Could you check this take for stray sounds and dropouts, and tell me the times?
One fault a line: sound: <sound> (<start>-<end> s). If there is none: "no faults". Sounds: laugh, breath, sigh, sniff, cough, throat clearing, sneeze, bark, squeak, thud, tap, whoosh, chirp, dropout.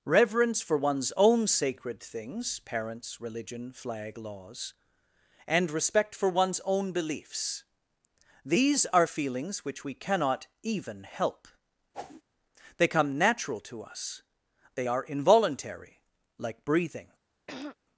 sound: whoosh (11.9-12.2 s)
sound: throat clearing (17.5-17.8 s)